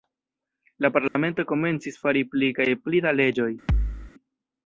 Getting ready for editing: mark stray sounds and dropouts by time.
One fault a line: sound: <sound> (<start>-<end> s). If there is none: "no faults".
sound: dropout (1.1-1.2 s)
sound: thud (3.7-4.1 s)